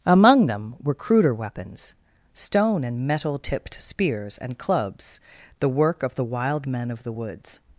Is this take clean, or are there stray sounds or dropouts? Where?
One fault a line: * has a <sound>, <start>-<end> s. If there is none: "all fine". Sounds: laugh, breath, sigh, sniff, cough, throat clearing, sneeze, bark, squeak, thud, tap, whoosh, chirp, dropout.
all fine